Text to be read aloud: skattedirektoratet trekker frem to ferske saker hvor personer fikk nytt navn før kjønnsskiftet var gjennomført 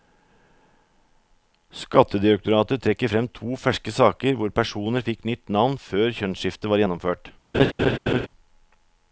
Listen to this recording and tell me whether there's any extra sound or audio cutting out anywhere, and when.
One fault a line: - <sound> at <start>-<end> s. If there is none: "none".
- laugh at 7.5-8.3 s